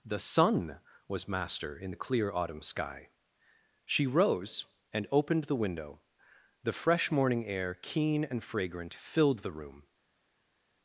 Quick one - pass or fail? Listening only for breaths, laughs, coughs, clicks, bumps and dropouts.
pass